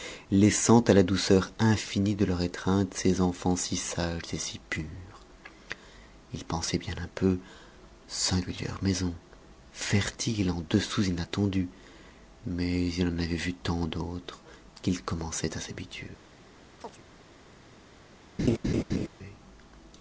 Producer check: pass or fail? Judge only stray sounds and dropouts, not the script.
fail